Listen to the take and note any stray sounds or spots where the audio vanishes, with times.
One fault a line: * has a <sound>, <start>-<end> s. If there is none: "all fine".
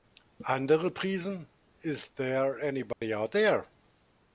* has a dropout, 2.9-3.0 s